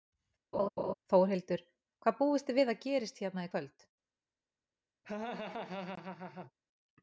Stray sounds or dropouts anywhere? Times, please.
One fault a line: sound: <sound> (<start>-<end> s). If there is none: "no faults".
sound: laugh (0.5-0.9 s)
sound: laugh (5.0-6.5 s)